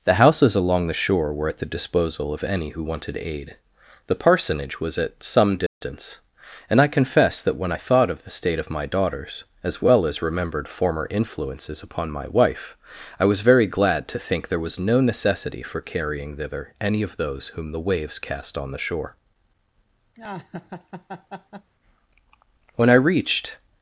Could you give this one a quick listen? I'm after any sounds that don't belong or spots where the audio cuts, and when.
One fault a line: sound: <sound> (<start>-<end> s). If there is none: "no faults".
sound: dropout (5.7-5.8 s)
sound: laugh (20.2-21.7 s)